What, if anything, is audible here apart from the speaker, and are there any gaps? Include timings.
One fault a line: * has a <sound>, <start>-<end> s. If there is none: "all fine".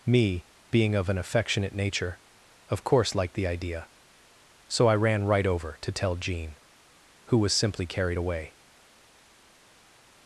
all fine